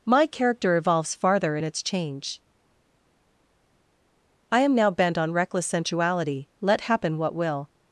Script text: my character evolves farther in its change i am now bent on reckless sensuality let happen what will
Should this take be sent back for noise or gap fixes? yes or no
no